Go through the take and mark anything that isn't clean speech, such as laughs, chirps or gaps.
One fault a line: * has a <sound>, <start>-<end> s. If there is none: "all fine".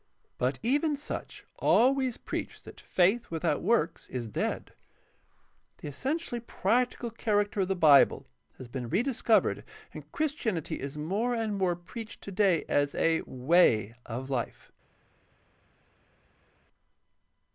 all fine